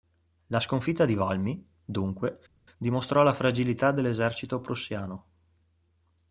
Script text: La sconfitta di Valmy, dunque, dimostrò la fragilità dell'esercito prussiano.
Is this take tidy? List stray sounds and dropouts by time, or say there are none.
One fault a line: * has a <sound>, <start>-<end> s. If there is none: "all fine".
all fine